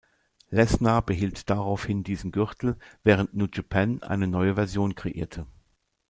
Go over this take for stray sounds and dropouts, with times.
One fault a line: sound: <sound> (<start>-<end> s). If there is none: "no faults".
no faults